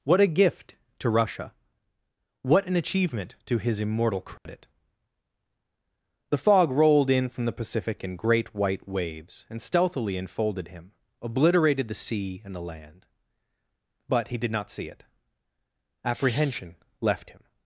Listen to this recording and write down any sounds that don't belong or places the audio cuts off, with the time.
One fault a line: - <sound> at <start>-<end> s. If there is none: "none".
- dropout at 4.4-4.5 s